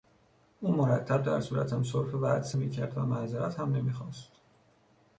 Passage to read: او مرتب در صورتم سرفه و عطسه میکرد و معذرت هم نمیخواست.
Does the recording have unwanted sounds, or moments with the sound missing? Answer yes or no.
no